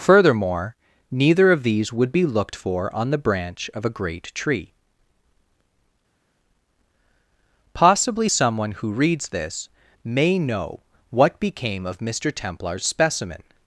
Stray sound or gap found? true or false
false